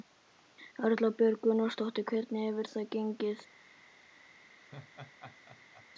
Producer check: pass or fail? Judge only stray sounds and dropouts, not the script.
fail